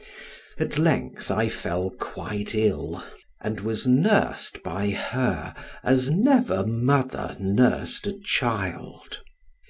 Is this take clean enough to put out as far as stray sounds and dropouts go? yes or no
yes